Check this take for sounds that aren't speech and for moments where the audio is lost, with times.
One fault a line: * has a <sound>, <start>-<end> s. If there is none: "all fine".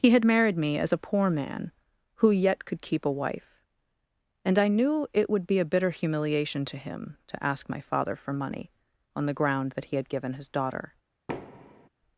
* has a thud, 11.3-11.9 s